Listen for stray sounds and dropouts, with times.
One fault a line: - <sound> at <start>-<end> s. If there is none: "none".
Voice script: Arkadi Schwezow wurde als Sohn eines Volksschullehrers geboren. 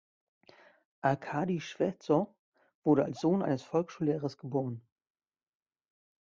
none